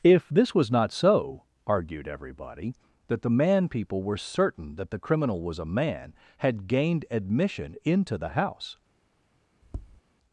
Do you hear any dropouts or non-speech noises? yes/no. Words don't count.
yes